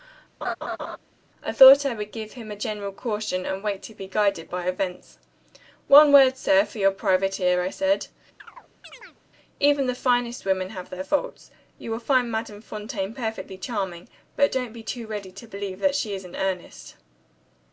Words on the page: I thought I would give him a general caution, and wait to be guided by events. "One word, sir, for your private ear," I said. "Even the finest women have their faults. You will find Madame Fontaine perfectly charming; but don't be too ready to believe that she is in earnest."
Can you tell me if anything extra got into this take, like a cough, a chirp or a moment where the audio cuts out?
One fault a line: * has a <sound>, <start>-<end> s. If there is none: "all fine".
* has a laugh, 0.4-1.0 s
* has a chirp, 8.4-9.2 s